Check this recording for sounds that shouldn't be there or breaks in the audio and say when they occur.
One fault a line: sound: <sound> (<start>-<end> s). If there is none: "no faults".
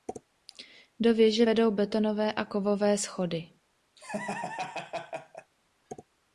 sound: laugh (4.0-5.5 s)